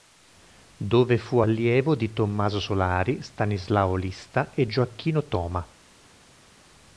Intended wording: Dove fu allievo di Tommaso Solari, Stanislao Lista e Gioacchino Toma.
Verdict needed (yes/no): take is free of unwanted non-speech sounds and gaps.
yes